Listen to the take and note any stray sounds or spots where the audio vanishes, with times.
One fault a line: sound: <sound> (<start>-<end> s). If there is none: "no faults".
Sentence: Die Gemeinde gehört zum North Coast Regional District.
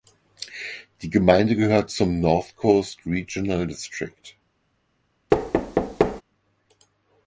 sound: thud (5.3-6.2 s)